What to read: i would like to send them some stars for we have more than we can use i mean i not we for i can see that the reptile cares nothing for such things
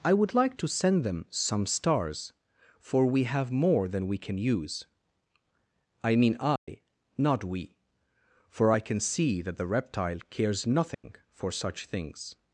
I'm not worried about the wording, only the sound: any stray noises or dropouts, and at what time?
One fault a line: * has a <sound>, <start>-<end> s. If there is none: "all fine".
* has a dropout, 6.6-6.7 s
* has a dropout, 10.9-11.0 s